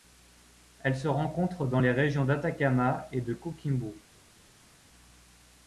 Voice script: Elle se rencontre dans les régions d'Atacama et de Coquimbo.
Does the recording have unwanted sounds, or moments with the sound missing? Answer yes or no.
no